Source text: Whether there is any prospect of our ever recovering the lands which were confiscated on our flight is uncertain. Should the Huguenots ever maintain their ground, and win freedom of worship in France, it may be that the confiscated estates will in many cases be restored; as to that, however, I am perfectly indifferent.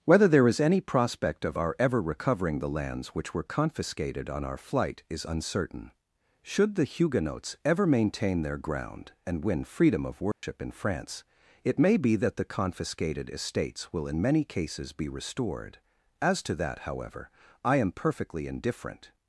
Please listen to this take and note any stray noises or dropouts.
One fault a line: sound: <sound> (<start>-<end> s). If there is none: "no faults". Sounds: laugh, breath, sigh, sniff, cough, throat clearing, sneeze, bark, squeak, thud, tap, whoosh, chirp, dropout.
sound: dropout (10.3-10.4 s)